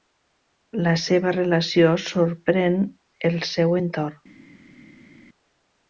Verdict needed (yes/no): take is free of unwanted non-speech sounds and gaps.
yes